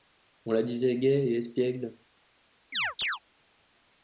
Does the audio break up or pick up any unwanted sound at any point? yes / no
yes